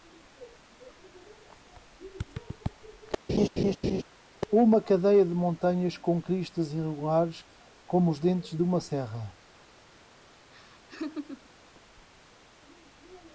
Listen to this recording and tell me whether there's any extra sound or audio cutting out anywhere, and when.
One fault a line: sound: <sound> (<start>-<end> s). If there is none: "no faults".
sound: laugh (3.3-4.0 s)
sound: laugh (10.5-11.5 s)